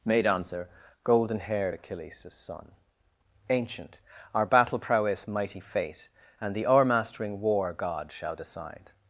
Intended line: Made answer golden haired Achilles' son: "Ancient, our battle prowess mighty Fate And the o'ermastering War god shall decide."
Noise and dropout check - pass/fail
pass